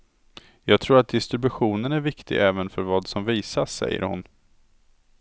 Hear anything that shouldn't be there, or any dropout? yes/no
no